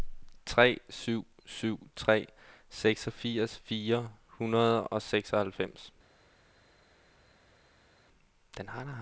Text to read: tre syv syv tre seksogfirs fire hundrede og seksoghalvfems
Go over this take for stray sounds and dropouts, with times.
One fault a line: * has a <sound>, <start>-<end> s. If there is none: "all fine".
all fine